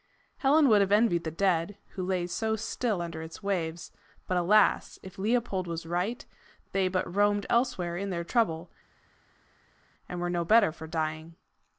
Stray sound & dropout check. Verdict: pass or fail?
pass